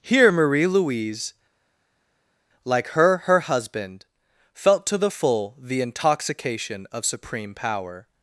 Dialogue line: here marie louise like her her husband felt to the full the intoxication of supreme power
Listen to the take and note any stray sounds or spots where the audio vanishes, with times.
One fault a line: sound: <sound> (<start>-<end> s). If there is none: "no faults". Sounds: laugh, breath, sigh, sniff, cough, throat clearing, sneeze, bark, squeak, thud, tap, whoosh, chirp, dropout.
no faults